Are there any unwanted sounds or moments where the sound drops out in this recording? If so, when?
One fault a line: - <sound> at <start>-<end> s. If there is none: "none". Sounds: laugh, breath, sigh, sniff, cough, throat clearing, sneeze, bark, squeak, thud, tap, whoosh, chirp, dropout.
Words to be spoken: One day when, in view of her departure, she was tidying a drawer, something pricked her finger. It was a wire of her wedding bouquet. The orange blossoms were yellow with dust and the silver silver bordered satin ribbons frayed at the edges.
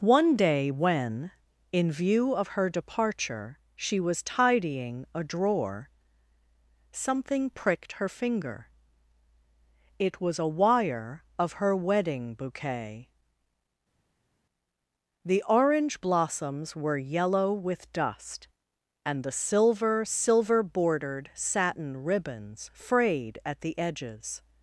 none